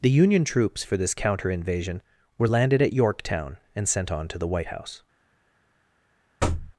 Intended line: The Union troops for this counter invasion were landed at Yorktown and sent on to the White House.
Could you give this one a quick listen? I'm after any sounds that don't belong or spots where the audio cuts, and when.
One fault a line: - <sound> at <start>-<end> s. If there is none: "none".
- thud at 6.4-6.7 s